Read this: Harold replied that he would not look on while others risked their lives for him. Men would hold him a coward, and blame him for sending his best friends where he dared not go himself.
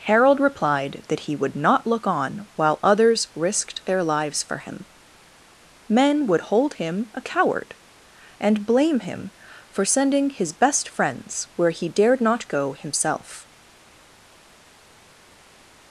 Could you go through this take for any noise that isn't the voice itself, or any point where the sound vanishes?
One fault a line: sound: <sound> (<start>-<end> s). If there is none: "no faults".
no faults